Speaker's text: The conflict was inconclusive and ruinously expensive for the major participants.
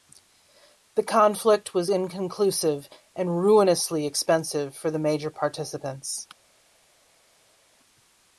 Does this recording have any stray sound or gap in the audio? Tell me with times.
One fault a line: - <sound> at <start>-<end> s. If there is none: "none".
none